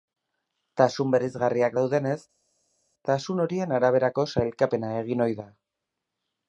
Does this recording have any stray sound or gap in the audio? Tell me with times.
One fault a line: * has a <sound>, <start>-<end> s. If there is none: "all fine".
all fine